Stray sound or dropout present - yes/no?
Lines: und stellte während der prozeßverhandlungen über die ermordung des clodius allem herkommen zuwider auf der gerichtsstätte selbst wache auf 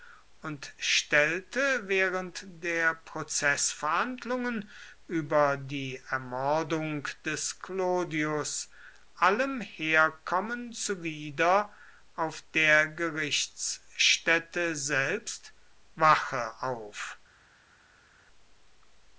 no